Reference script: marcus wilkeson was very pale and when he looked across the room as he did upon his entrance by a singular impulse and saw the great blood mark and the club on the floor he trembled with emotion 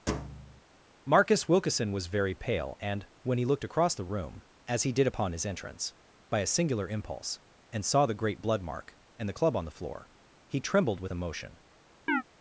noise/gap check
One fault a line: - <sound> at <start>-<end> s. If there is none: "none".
- thud at 0.1-0.6 s
- chirp at 12.1-12.2 s